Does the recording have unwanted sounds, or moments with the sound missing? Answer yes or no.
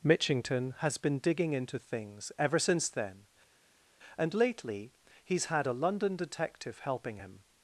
no